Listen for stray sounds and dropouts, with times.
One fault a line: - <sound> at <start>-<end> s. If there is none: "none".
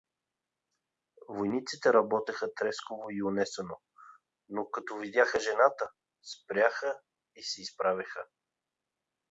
none